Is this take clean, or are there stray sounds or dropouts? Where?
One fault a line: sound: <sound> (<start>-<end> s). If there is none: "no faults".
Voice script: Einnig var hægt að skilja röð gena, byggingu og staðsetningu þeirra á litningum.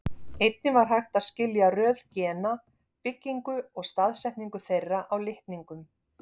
no faults